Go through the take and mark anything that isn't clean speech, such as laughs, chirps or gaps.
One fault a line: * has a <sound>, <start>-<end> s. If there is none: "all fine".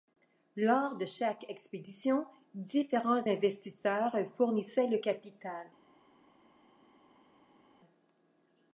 all fine